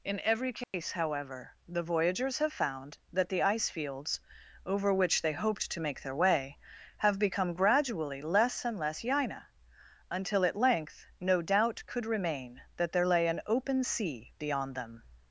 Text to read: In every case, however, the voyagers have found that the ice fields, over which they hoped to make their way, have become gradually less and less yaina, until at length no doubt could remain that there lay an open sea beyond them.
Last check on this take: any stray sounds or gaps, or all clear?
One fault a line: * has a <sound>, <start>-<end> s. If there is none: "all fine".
* has a dropout, 0.6-0.7 s